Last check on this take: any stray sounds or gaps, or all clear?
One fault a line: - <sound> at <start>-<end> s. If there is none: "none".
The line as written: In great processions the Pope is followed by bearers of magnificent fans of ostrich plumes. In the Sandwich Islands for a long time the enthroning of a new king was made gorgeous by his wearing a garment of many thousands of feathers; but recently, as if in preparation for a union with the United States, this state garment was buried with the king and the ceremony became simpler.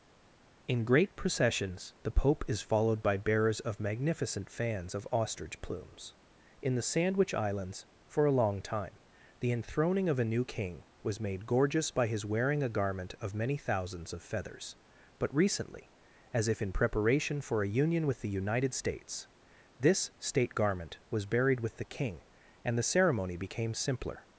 none